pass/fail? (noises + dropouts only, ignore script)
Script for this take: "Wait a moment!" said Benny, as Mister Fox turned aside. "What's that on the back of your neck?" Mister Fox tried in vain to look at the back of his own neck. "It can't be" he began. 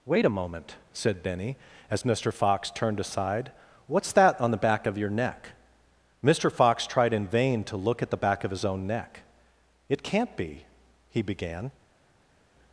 pass